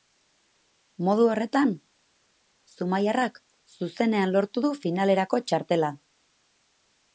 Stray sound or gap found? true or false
false